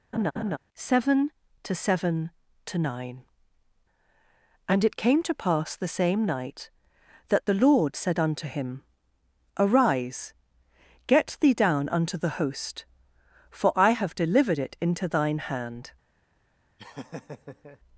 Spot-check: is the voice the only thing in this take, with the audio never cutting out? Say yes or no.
no